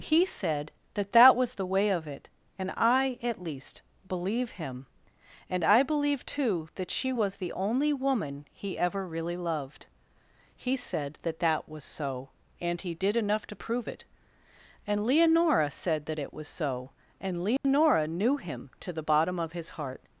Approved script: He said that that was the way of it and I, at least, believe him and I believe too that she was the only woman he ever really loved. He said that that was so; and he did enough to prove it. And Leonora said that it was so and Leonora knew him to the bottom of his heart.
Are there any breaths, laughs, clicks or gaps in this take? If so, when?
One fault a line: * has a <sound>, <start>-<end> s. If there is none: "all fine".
* has a dropout, 17.6-17.6 s